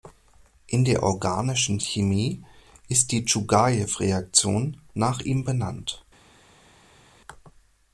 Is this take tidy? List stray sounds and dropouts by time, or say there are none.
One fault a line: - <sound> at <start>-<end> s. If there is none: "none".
none